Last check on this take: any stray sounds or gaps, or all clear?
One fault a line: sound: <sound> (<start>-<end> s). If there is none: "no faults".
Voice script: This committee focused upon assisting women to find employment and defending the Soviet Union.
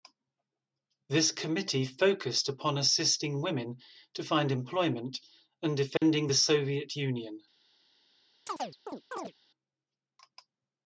sound: dropout (6.0-6.0 s)
sound: chirp (8.5-9.3 s)